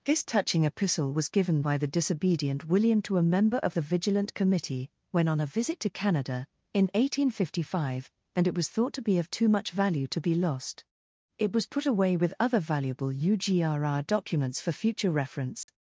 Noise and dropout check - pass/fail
fail